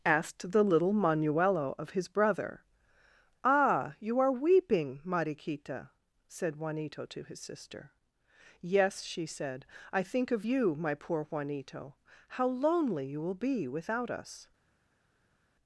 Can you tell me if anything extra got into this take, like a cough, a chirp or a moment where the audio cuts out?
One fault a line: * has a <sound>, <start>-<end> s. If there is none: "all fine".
all fine